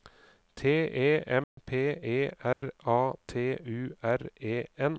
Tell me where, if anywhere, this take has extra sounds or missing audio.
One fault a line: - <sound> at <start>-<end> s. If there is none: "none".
- dropout at 1.4-1.6 s
- dropout at 2.5-2.6 s